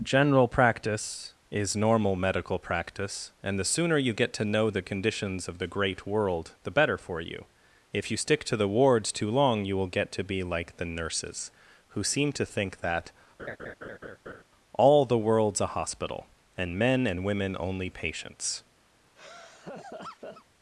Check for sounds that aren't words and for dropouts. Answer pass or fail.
fail